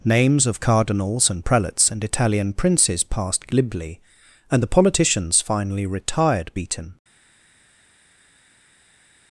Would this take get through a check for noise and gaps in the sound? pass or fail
pass